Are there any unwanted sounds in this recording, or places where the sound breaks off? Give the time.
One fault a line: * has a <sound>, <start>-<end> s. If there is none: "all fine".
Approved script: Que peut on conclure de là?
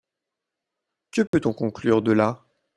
* has a dropout, 1.3-1.3 s